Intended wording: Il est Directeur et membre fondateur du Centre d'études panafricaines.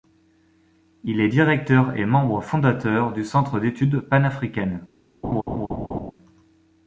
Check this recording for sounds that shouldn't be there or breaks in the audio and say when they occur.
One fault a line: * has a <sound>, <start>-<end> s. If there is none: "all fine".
* has a laugh, 5.2-6.1 s